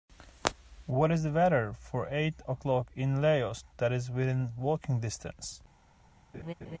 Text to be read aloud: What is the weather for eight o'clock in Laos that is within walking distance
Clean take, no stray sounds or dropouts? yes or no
no